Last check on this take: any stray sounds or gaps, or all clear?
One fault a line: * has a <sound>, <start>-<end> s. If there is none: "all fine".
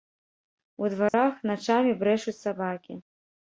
* has a dropout, 1.1-1.1 s